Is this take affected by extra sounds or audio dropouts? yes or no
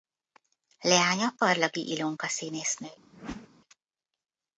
yes